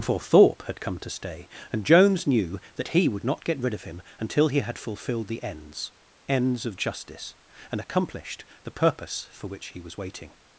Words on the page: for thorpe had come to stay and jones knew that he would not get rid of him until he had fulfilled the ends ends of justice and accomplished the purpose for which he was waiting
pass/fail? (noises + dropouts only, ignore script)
pass